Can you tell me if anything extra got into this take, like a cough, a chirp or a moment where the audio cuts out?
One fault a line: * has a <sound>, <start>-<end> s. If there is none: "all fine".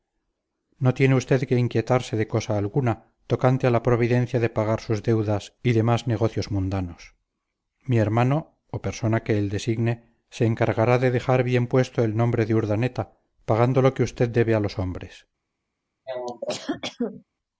* has a cough, 16.1-17.2 s